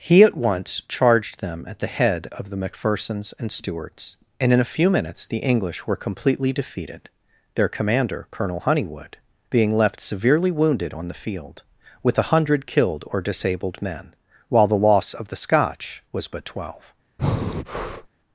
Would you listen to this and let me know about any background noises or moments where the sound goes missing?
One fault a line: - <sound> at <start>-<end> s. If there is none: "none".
- breath at 17.2-18.1 s